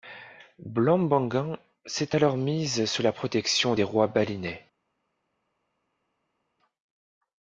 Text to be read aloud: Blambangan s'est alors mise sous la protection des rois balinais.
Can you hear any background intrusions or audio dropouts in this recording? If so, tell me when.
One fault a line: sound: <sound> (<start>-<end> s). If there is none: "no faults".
no faults